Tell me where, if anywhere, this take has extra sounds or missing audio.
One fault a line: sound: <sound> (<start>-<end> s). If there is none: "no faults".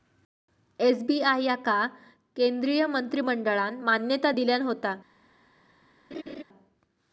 sound: laugh (6.1-6.4 s)